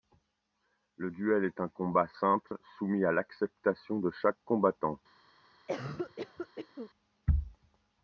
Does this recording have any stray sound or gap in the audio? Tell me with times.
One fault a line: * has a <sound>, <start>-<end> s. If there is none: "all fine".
* has a dropout, 2.5-2.5 s
* has a cough, 5.7-6.9 s